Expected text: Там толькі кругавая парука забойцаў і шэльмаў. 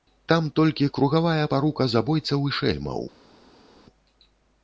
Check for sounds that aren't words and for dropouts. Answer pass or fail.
pass